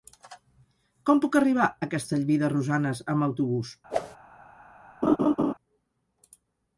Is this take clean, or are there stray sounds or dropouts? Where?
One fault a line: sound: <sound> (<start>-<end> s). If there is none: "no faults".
sound: whoosh (3.9-4.2 s)
sound: laugh (5.0-5.5 s)